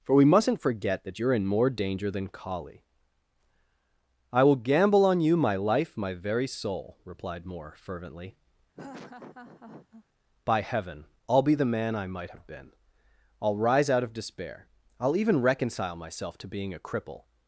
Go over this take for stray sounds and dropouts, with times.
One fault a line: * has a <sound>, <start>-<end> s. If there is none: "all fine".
* has a laugh, 8.7-10.0 s